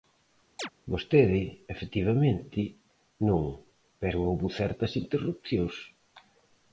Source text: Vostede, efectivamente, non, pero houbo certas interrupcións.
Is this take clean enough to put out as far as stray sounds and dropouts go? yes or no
no